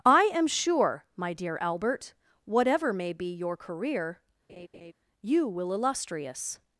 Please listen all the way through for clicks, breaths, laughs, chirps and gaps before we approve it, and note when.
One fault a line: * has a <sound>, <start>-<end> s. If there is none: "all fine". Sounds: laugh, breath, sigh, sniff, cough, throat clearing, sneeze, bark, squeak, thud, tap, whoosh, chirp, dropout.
* has a laugh, 4.5-4.9 s